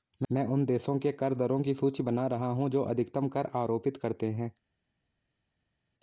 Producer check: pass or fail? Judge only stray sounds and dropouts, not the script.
pass